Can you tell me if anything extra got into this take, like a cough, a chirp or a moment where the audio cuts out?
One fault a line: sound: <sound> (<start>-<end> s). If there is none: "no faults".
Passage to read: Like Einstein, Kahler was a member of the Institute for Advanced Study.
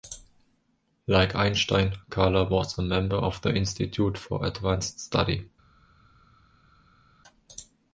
no faults